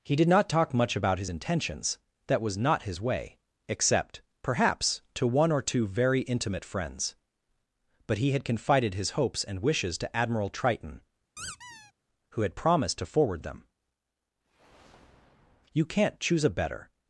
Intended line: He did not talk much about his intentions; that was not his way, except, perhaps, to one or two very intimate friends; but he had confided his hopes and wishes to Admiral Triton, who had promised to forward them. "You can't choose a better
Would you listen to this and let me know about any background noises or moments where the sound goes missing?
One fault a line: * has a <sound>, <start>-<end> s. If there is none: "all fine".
* has a squeak, 11.4-11.9 s